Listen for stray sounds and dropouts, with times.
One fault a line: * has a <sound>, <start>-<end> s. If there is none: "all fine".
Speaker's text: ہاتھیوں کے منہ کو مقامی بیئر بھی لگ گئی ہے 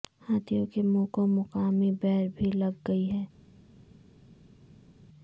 all fine